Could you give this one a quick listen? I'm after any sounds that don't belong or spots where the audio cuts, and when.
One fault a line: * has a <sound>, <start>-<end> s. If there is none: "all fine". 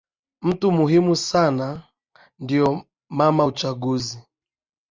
all fine